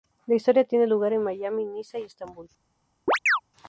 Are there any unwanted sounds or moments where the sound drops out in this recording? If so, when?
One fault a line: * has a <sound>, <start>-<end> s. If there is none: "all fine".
* has a chirp, 3.1-3.4 s